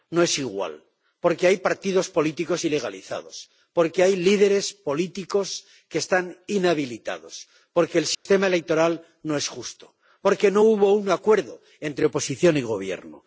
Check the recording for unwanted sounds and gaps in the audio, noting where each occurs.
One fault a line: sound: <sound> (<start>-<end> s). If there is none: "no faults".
sound: dropout (8.1-8.3 s)